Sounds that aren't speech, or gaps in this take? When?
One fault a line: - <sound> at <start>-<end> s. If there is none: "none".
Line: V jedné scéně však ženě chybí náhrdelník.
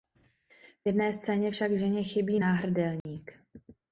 - dropout at 3.0-3.1 s